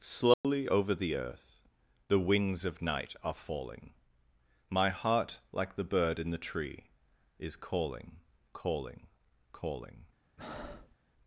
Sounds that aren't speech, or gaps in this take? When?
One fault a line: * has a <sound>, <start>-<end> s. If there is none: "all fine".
* has a dropout, 0.3-0.4 s
* has a breath, 10.4-11.0 s